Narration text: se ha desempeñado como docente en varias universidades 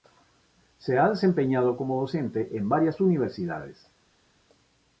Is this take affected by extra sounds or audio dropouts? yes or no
no